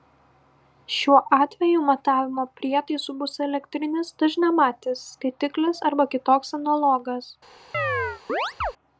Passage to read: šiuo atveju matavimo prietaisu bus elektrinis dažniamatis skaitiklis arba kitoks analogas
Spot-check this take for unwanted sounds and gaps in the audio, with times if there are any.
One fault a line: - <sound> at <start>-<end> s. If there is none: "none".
- chirp at 7.7-8.7 s